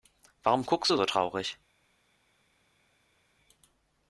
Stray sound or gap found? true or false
false